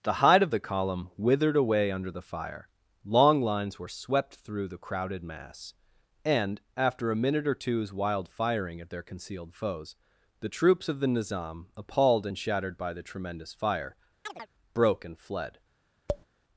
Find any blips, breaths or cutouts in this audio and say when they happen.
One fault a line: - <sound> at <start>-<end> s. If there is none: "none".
- chirp at 14.3-14.5 s
- tap at 16.1-16.3 s